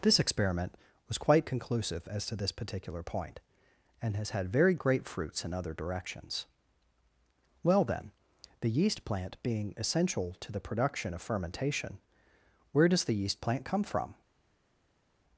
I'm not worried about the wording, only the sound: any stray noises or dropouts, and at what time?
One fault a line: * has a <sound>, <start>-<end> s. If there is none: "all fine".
all fine